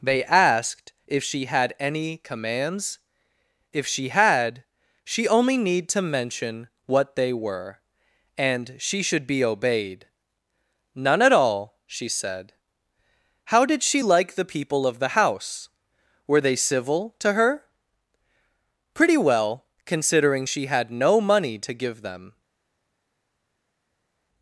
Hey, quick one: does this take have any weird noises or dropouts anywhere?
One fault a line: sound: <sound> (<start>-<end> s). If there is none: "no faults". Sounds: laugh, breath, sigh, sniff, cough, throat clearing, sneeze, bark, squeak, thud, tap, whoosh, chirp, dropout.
no faults